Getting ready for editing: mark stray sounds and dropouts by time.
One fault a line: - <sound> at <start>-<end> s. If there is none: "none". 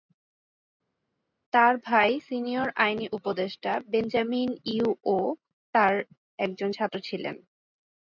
none